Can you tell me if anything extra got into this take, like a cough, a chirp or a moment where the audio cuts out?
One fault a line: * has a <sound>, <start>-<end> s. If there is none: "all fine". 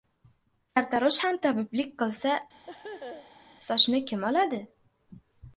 * has a laugh, 2.7-3.5 s